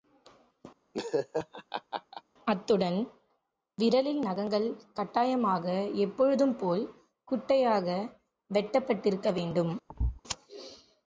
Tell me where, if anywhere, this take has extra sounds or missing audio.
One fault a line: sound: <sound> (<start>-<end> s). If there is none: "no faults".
sound: laugh (0.9-2.2 s)
sound: thud (9.9-10.2 s)